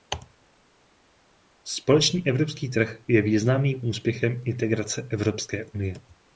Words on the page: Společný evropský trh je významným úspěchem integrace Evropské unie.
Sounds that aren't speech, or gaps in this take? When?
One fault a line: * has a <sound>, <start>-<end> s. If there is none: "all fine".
all fine